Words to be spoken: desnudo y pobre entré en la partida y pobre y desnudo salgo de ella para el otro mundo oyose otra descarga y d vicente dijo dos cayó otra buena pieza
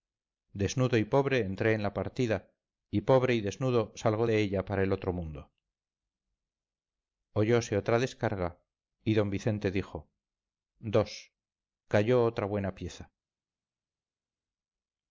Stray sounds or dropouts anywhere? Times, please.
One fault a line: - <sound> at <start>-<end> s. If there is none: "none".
none